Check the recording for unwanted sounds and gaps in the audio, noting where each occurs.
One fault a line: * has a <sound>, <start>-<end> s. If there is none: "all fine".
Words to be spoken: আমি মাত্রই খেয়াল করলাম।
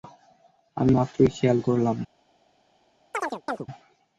* has a chirp, 3.1-3.7 s